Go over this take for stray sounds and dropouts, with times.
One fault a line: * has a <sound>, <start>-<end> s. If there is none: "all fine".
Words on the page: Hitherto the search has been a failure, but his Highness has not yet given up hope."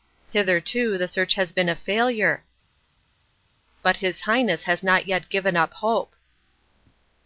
all fine